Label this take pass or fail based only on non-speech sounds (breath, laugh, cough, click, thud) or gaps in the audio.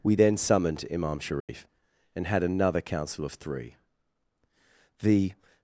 fail